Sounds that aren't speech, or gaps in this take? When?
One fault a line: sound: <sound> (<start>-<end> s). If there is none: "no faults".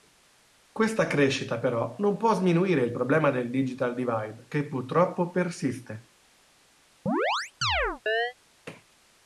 sound: chirp (7.1-8.3 s)